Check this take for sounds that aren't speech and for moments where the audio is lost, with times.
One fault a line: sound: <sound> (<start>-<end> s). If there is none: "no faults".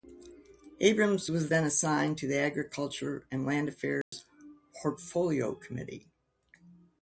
sound: dropout (4.0-4.1 s)